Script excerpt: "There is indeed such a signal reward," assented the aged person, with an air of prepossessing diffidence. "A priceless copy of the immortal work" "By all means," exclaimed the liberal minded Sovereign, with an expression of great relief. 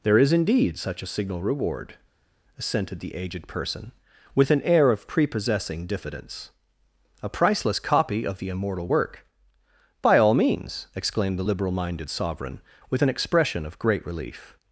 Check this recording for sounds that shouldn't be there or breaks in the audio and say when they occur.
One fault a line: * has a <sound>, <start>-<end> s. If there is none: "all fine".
all fine